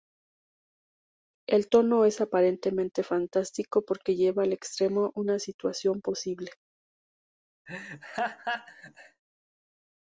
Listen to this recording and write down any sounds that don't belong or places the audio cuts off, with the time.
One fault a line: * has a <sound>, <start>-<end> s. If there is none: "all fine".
* has a laugh, 7.7-9.2 s